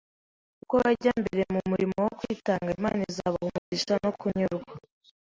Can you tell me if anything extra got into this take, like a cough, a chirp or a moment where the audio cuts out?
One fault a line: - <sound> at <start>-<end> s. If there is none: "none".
- dropout at 3.6-3.7 s